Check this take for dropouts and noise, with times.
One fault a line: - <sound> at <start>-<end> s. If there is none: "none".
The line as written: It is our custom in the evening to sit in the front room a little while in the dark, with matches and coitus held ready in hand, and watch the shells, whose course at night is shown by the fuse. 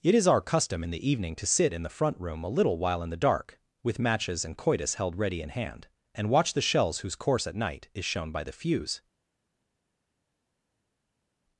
none